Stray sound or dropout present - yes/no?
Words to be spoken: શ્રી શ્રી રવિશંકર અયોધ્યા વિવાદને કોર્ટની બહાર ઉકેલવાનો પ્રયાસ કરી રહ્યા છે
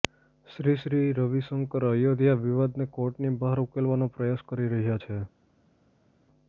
no